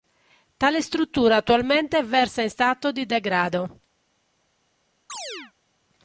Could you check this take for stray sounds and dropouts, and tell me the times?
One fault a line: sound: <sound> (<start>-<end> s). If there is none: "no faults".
sound: chirp (5.1-5.5 s)